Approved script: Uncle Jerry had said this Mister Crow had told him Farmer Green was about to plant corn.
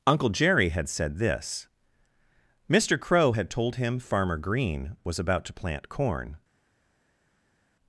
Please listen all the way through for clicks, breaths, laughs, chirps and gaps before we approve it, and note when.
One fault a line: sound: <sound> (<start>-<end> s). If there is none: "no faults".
no faults